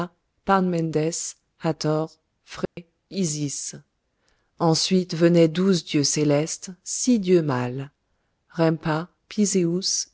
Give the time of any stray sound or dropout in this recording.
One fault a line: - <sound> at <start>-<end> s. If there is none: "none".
- dropout at 2.7-2.8 s